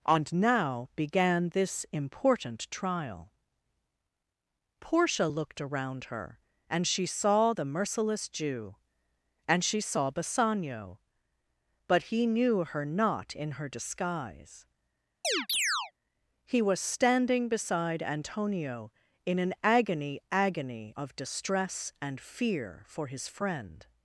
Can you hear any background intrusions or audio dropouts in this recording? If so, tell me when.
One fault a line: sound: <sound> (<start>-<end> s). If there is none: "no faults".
sound: chirp (15.2-15.9 s)